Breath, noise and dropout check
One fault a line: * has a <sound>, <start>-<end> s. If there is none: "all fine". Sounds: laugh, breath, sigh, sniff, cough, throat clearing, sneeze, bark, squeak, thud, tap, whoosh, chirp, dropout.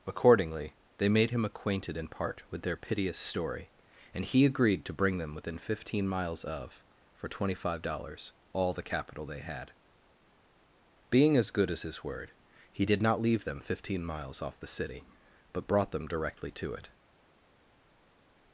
all fine